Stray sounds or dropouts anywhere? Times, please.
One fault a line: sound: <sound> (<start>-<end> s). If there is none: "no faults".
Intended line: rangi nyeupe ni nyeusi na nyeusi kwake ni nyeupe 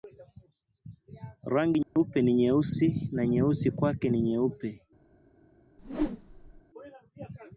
sound: dropout (1.8-2.0 s)
sound: whoosh (5.8-6.6 s)